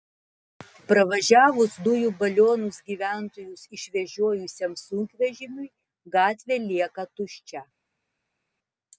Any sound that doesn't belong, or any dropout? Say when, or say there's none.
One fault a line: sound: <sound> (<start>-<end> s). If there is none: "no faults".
no faults